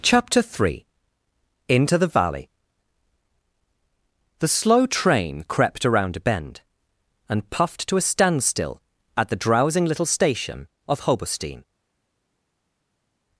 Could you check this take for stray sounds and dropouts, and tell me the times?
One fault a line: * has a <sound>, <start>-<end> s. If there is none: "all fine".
all fine